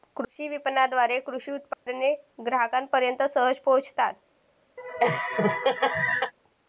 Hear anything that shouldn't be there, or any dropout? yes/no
yes